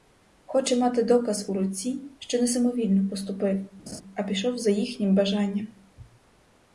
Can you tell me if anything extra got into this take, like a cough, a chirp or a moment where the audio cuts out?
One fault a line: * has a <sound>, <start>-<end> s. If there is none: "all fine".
* has a laugh, 3.9-4.0 s